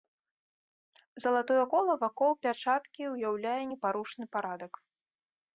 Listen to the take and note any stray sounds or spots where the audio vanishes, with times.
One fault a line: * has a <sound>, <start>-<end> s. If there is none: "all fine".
all fine